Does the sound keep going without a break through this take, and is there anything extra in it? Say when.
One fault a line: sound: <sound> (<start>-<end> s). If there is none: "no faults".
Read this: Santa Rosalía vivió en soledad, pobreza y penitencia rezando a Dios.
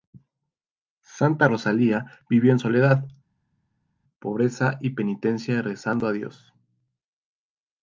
no faults